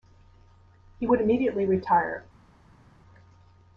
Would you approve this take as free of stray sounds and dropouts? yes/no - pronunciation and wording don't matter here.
yes